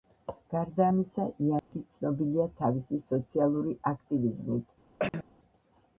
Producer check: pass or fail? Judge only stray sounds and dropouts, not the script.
fail